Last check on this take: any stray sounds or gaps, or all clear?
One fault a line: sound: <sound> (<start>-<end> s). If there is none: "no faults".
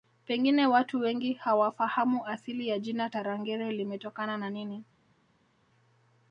no faults